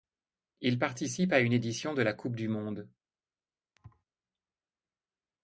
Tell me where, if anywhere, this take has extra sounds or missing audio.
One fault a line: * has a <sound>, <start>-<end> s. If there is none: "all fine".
* has a thud, 3.8-4.0 s